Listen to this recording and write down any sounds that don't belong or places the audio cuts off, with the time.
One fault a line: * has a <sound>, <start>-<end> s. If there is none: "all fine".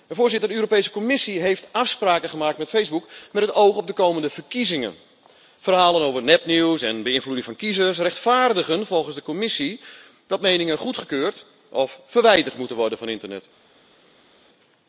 all fine